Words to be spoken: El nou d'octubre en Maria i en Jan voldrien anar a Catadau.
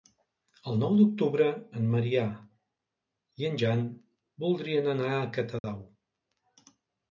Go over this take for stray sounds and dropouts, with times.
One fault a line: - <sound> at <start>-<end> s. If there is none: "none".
- dropout at 5.6-5.6 s